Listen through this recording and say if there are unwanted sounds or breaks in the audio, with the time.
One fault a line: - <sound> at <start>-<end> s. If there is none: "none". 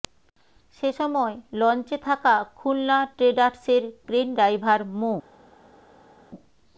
none